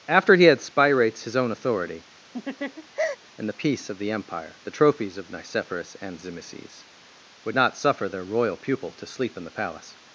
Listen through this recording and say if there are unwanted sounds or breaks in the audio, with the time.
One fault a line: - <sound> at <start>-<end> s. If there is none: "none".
- laugh at 2.3-3.2 s